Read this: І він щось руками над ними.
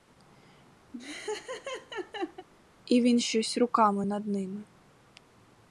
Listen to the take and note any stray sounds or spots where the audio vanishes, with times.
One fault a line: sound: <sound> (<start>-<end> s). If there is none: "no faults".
sound: laugh (0.9-2.5 s)